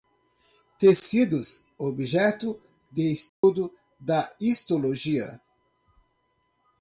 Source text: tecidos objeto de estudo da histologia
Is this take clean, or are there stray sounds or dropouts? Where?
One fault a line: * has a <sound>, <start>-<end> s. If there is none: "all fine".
* has a dropout, 3.3-3.4 s